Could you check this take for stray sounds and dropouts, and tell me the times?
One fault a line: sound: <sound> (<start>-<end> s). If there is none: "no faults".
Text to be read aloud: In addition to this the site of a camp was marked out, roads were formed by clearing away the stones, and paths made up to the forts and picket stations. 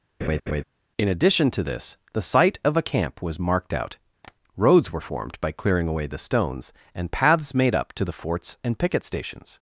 sound: laugh (0.2-0.6 s)
sound: tap (4.2-4.4 s)